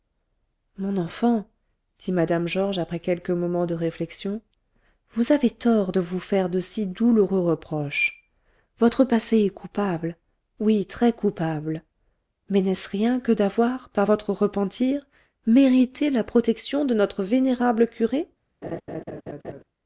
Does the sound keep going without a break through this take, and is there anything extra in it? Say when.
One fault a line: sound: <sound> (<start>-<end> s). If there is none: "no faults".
sound: laugh (18.6-19.6 s)